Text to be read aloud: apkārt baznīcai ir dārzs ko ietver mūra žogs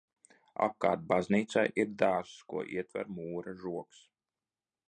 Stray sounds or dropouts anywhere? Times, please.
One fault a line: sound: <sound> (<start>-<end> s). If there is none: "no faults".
no faults